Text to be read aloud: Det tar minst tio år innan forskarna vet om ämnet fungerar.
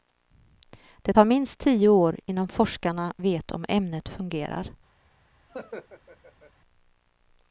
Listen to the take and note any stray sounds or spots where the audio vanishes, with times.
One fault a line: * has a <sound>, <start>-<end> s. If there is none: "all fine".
* has a laugh, 5.5-6.5 s